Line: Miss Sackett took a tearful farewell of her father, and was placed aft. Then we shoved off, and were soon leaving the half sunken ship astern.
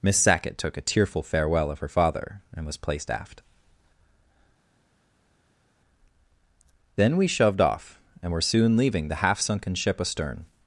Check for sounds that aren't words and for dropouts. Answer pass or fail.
pass